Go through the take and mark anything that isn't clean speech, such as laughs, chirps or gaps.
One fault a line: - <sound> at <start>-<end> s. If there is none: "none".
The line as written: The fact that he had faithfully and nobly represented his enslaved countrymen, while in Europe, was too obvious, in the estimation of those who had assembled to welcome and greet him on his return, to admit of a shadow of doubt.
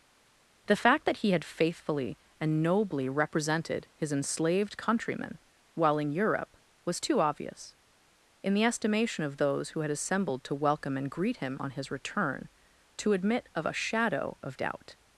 none